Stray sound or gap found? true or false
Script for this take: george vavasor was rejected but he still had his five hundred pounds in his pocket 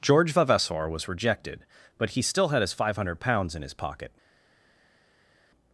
false